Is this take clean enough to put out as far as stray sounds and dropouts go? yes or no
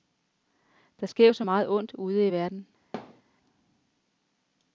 no